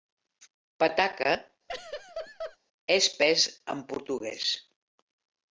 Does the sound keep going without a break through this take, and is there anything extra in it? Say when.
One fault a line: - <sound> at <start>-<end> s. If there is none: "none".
- laugh at 1.7-2.6 s